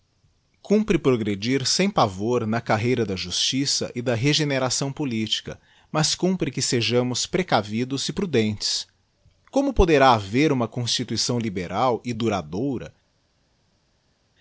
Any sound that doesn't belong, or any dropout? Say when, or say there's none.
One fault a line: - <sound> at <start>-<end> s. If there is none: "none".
none